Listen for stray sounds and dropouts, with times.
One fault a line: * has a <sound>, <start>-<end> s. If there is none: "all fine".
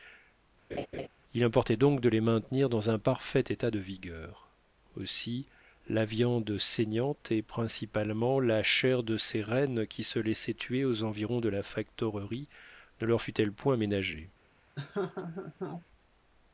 * has a laugh, 0.7-1.1 s
* has a laugh, 14.8-15.9 s